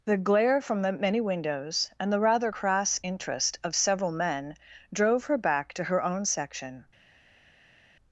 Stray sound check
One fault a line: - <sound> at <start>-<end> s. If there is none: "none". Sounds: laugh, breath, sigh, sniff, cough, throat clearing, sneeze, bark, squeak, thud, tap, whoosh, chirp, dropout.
none